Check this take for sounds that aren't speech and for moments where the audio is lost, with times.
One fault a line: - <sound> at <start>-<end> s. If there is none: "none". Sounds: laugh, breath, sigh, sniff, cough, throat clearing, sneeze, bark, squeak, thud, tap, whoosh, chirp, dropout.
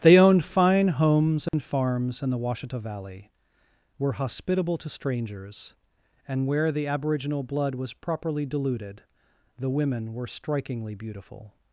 - dropout at 1.5-1.5 s